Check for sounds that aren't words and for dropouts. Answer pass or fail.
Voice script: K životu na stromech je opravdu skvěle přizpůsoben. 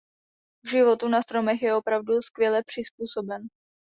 pass